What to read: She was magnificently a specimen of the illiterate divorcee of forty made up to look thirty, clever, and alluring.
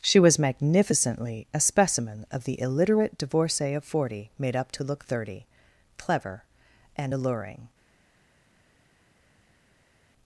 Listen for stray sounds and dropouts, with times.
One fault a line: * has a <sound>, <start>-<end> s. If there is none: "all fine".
all fine